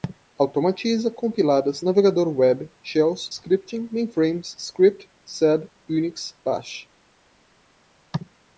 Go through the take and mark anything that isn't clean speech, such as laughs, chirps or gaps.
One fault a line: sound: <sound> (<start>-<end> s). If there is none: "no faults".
no faults